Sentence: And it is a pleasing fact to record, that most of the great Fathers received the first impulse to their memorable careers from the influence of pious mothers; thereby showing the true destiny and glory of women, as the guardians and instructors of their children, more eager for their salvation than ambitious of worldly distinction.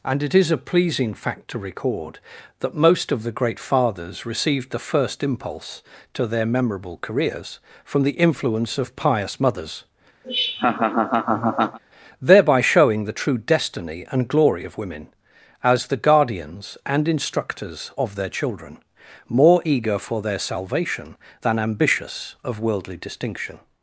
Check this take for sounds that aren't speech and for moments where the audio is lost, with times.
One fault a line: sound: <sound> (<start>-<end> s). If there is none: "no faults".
sound: laugh (10.2-11.8 s)